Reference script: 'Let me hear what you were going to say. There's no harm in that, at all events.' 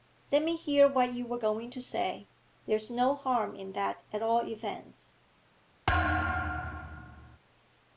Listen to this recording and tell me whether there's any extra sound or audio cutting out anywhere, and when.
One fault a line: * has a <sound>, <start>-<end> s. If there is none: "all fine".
* has a thud, 5.9-7.4 s